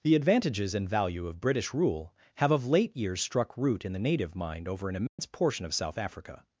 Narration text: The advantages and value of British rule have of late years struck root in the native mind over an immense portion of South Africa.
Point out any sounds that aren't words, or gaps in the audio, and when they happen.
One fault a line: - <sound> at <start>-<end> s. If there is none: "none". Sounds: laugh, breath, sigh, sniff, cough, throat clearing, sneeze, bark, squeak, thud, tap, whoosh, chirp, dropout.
- dropout at 5.1-5.2 s